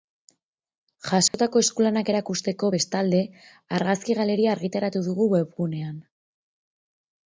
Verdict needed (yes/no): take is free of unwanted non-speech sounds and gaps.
no